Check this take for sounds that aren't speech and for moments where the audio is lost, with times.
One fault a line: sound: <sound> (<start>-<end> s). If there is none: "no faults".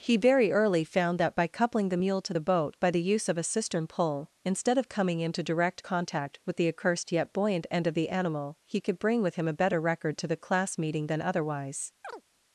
sound: chirp (12.0-12.2 s)